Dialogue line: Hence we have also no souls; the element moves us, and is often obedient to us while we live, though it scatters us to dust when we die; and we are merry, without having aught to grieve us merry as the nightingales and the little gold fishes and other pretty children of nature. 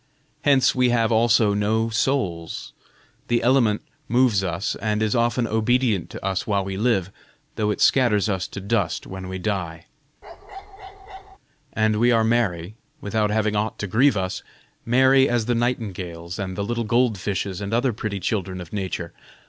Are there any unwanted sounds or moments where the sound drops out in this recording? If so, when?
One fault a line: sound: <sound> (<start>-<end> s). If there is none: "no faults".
sound: bark (10.2-11.4 s)